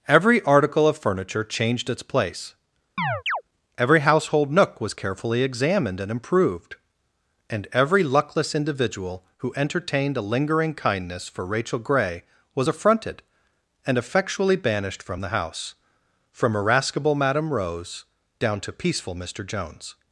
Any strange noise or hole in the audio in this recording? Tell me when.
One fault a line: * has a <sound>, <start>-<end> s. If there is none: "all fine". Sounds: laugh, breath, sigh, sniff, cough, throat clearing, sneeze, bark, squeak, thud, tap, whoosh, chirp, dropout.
* has a chirp, 3.0-3.4 s